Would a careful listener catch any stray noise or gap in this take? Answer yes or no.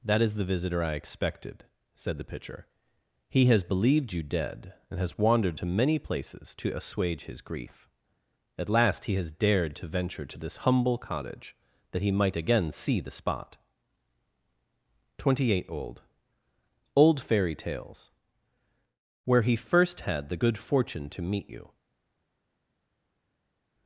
no